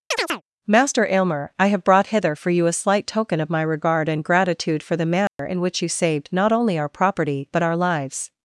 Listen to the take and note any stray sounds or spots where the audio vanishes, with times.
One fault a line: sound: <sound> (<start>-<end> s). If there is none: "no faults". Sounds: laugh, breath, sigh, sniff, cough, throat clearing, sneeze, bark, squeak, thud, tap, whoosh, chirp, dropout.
sound: chirp (0.1-0.4 s)
sound: dropout (5.3-5.4 s)